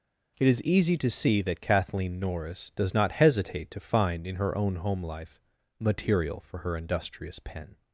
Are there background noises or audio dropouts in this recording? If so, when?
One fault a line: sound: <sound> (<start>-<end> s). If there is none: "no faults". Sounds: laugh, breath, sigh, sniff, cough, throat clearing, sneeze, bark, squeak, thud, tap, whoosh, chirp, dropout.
no faults